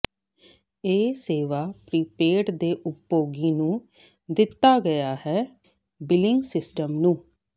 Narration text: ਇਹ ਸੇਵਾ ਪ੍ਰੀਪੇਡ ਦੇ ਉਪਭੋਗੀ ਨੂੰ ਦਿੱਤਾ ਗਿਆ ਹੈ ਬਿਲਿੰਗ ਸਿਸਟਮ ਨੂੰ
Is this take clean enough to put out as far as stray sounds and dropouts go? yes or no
yes